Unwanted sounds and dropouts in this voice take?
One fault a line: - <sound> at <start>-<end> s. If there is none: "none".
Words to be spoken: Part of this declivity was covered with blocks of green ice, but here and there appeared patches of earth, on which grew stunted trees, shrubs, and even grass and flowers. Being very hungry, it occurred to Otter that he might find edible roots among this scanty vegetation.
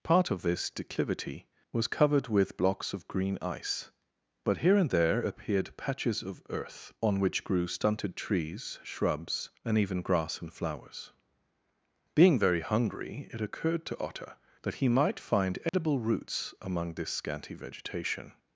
- dropout at 15.7-15.7 s